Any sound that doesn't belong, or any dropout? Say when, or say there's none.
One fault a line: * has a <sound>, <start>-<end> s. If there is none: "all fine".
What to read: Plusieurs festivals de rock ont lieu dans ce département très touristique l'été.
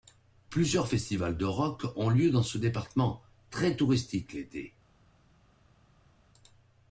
all fine